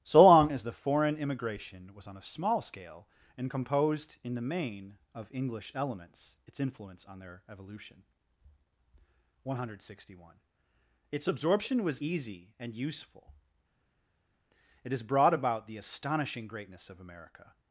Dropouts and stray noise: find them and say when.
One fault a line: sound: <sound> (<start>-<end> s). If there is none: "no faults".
no faults